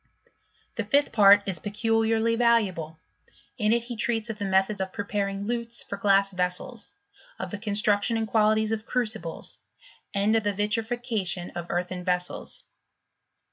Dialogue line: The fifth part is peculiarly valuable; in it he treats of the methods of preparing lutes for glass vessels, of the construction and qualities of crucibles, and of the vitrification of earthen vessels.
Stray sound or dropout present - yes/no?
no